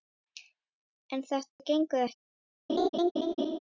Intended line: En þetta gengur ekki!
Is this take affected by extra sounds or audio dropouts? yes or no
yes